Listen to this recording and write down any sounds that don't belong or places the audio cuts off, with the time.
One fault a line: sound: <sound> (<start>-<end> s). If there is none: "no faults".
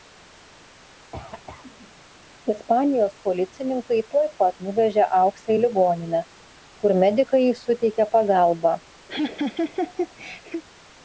sound: cough (1.1-2.1 s)
sound: laugh (9.1-10.6 s)